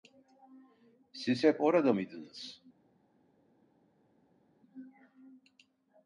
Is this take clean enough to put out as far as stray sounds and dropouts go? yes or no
yes